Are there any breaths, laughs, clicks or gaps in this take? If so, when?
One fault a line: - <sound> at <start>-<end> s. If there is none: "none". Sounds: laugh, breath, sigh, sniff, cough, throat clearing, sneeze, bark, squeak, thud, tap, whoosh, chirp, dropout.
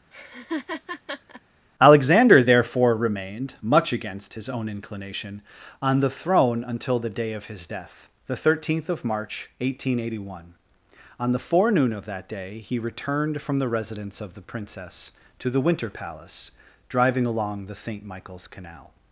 - laugh at 0.1-1.4 s